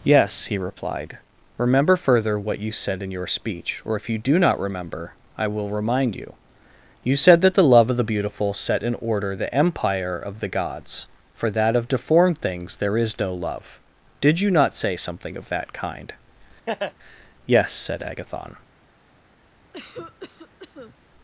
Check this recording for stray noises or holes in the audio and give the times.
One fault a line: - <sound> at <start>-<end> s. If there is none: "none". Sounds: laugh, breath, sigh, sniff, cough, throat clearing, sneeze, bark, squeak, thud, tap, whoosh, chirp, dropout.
- laugh at 16.7-16.9 s
- cough at 19.7-21.0 s